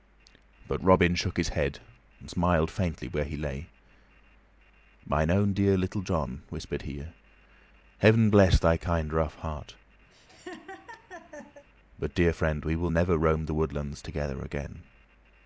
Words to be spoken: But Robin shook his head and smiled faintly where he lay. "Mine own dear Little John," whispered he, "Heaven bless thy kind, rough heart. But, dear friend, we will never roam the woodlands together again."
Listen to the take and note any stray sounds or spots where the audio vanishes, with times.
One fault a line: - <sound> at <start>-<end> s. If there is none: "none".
- laugh at 10.1-11.6 s